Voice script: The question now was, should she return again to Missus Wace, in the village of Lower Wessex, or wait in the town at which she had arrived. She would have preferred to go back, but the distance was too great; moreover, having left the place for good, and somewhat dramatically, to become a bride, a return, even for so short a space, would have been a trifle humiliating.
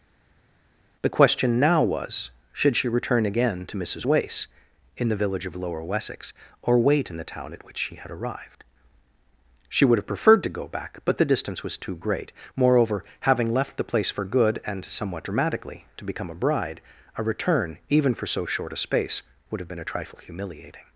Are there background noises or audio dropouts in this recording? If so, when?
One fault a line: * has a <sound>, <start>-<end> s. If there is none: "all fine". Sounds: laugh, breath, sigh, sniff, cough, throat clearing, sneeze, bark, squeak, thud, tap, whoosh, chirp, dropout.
all fine